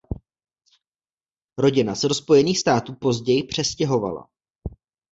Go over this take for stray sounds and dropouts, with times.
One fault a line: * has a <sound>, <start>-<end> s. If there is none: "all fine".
all fine